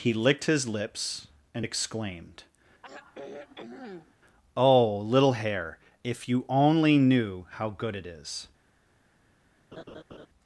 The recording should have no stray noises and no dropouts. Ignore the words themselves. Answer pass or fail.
fail